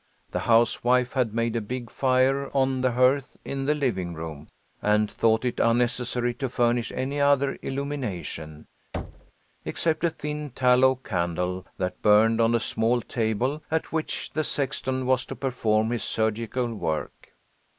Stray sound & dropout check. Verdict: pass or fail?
fail